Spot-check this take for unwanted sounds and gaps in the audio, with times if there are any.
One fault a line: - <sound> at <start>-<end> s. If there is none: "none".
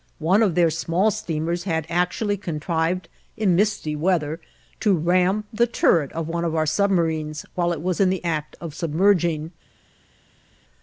none